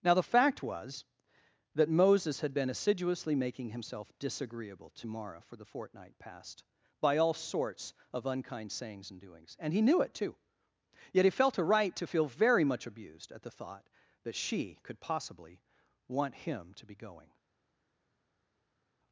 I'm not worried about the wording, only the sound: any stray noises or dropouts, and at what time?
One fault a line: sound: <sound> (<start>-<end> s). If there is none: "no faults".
no faults